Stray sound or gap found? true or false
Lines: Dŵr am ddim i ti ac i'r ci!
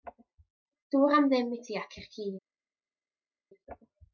false